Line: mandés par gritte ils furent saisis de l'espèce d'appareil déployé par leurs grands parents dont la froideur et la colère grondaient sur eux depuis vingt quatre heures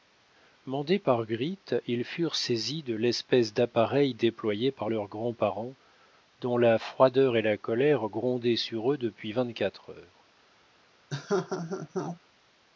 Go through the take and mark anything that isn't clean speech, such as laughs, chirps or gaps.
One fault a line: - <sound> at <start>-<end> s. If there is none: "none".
- laugh at 11.1-12.2 s